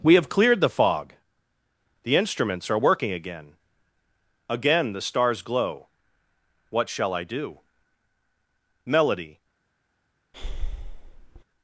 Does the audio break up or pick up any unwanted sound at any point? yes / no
yes